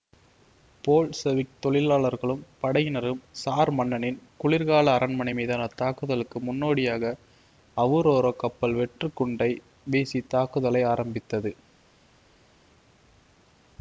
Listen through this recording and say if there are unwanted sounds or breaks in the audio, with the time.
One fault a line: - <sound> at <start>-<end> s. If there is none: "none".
none